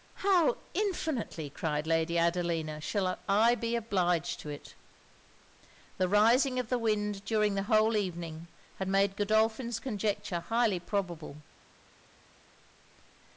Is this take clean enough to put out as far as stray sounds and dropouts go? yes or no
yes